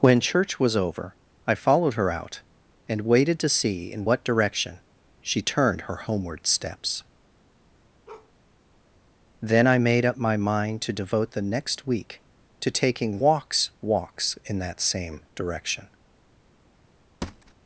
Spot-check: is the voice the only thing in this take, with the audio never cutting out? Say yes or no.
no